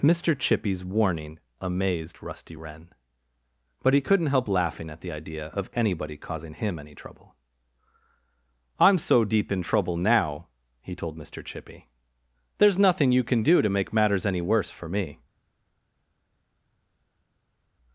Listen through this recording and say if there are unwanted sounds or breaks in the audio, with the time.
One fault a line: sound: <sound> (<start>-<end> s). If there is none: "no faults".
no faults